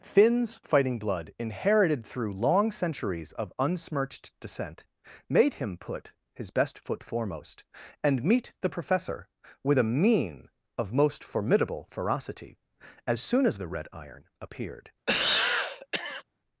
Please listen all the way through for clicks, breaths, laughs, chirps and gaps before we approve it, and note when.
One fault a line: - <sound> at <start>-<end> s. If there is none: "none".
- cough at 15.1-16.2 s